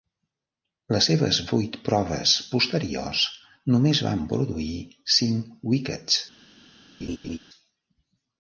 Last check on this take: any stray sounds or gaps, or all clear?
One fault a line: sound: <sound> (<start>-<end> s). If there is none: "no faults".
sound: laugh (7.0-7.4 s)